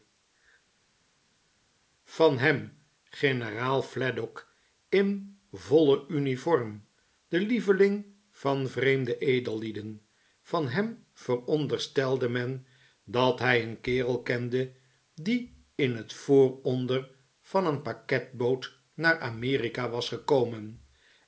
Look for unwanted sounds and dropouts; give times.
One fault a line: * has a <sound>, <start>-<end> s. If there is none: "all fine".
all fine